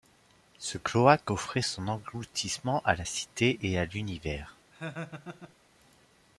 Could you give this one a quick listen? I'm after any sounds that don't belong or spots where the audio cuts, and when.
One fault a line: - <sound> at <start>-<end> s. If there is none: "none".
- laugh at 4.7-5.6 s